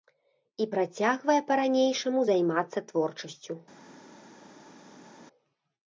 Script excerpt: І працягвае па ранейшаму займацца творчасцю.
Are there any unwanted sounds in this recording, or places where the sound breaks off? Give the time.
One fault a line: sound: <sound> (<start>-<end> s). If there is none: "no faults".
no faults